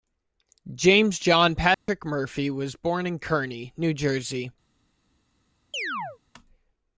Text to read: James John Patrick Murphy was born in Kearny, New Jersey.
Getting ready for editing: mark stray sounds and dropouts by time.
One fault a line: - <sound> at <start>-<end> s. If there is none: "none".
- dropout at 1.7-1.9 s
- chirp at 5.7-6.2 s